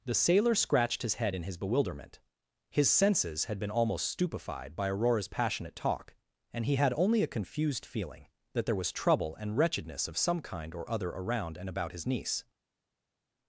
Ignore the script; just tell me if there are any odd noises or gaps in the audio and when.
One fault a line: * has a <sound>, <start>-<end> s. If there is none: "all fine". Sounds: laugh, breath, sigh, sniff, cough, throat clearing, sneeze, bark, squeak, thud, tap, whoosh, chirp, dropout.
all fine